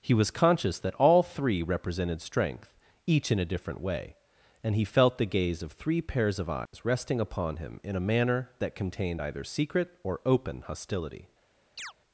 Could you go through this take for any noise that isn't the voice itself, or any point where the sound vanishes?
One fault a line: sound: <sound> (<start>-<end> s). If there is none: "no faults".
sound: dropout (6.7-6.7 s)
sound: chirp (11.8-11.9 s)